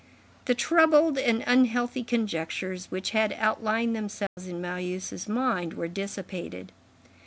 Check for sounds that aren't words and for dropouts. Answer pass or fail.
fail